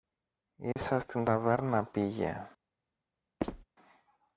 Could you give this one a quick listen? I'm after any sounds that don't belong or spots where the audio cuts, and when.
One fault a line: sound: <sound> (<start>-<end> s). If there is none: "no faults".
sound: dropout (0.7-0.8 s)
sound: squeak (3.4-3.6 s)